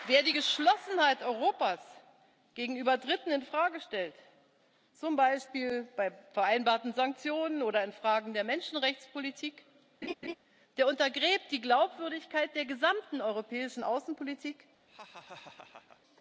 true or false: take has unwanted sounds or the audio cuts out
true